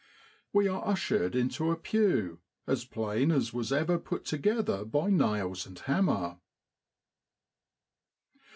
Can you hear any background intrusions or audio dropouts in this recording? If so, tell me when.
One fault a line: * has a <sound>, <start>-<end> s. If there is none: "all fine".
all fine